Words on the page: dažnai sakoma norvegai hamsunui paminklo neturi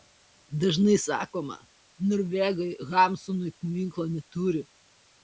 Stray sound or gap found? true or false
false